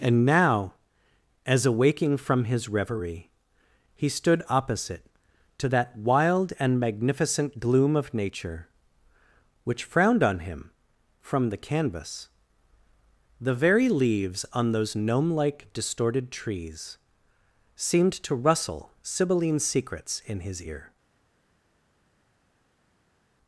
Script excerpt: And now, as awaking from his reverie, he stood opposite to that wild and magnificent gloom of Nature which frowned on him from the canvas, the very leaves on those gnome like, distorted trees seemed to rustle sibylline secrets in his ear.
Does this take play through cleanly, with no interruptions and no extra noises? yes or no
yes